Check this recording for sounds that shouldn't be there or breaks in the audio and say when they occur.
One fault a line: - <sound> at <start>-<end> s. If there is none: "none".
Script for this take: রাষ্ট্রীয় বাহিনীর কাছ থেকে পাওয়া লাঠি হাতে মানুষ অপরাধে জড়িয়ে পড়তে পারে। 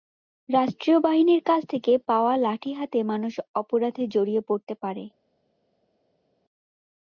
none